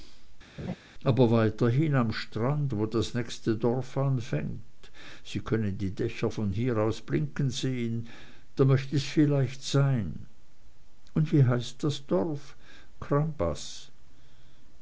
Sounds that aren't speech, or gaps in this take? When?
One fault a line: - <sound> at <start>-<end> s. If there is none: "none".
- laugh at 0.6-0.8 s